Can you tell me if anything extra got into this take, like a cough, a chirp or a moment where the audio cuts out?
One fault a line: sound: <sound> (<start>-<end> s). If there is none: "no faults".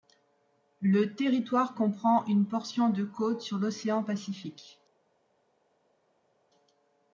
no faults